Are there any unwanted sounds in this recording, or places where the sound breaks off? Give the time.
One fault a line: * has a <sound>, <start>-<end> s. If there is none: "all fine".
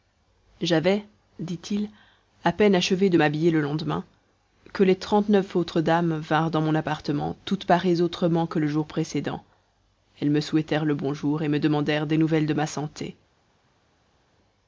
all fine